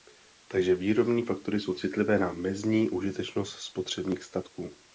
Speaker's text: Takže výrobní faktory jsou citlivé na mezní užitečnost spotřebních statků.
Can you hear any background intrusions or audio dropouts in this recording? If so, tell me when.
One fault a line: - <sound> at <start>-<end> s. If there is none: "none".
none